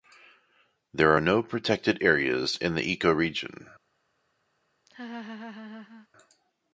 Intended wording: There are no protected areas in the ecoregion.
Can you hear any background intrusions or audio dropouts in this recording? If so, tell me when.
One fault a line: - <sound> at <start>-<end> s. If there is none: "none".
- laugh at 4.9-6.1 s